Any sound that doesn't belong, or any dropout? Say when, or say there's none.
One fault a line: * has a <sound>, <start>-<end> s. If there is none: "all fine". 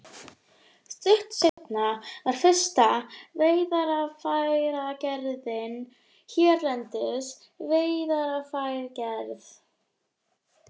* has a dropout, 1.5-1.6 s